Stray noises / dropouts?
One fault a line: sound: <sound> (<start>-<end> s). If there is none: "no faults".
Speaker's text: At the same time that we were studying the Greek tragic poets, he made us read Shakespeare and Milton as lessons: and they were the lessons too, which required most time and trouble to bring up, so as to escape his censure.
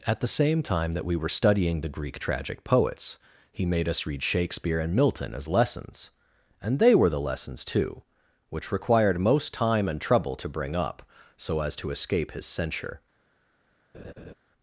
sound: laugh (13.9-14.3 s)